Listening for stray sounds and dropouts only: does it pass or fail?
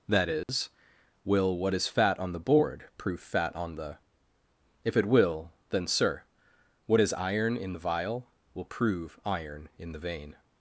fail